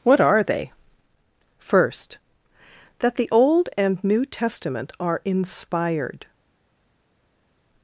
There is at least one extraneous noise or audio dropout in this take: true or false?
false